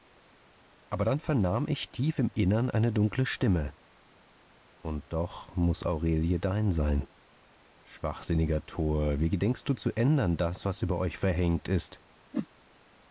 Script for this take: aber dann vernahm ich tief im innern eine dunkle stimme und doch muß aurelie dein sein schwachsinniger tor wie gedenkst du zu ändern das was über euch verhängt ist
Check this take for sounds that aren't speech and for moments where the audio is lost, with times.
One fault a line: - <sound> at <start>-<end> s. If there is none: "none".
- whoosh at 12.3-12.5 s